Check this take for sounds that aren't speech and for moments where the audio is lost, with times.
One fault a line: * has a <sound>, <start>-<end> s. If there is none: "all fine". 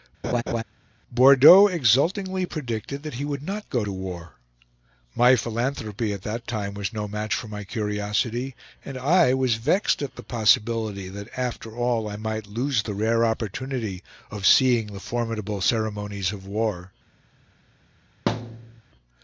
* has a laugh, 0.2-0.6 s
* has a thud, 18.3-18.8 s